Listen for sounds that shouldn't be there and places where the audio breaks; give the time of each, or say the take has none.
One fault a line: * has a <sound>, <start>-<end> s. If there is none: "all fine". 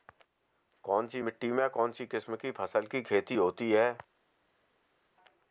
all fine